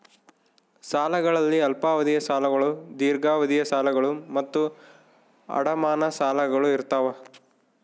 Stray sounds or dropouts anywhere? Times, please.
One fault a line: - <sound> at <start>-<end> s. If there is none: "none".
none